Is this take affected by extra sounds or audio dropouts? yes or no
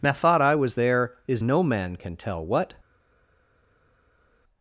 no